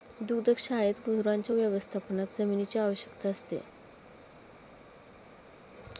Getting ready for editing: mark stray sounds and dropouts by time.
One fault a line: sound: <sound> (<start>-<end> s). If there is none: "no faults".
no faults